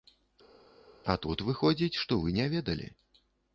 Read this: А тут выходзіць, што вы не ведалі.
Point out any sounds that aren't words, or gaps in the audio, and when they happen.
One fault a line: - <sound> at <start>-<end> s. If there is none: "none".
none